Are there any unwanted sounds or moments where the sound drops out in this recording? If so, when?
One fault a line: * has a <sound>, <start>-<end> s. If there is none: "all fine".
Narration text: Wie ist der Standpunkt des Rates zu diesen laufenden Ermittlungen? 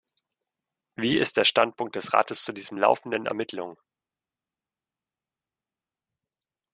all fine